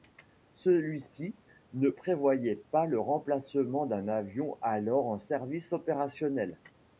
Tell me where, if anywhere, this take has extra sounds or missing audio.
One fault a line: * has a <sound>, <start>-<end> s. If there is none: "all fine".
all fine